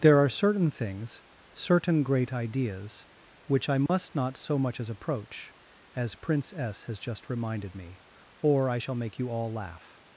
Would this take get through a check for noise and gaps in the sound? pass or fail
fail